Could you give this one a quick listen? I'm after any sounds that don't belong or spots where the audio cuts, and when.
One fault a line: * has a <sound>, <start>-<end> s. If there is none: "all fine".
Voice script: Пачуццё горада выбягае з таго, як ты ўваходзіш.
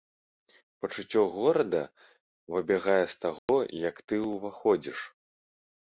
* has a dropout, 3.4-3.5 s